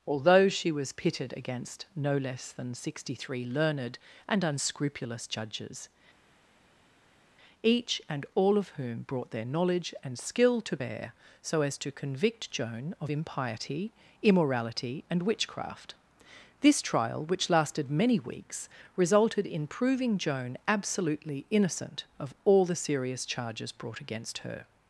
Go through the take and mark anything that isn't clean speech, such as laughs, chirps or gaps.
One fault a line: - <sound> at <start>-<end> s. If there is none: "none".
none